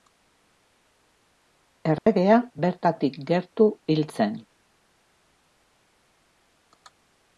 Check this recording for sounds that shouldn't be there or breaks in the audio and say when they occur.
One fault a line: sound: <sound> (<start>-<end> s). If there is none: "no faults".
sound: dropout (2.0-2.1 s)